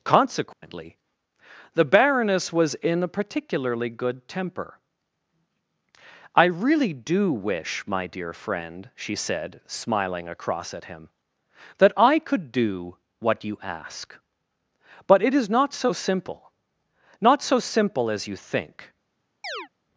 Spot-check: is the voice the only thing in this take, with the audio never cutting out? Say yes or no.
no